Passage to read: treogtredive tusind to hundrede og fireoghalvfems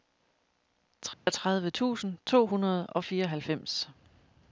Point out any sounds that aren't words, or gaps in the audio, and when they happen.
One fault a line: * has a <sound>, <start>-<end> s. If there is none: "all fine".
* has a dropout, 1.1-1.3 s